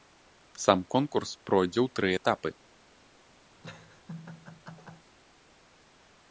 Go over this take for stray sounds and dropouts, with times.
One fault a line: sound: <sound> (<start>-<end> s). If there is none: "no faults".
sound: laugh (3.6-5.1 s)